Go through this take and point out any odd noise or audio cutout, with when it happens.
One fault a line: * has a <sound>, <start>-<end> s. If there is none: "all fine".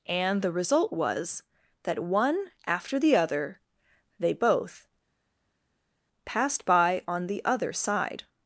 all fine